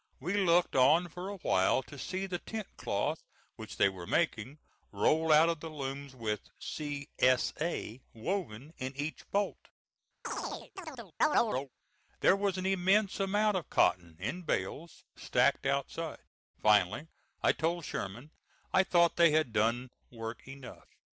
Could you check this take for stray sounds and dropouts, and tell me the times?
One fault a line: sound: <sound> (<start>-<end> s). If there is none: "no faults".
sound: chirp (10.2-11.7 s)